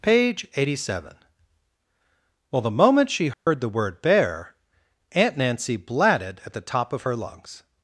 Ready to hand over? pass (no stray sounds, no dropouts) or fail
fail